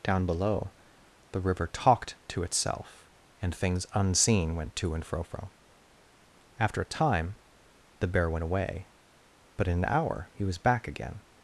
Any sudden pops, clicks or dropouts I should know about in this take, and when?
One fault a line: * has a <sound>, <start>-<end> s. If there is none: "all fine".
all fine